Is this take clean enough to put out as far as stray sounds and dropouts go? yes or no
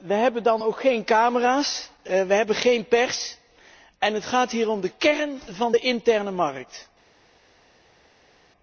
yes